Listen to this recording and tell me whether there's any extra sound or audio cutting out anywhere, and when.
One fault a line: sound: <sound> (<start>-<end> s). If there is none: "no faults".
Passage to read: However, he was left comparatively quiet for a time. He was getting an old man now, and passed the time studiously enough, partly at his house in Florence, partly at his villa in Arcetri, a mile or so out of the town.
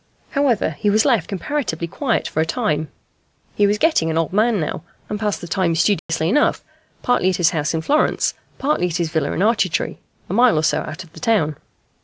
sound: dropout (6.0-6.1 s)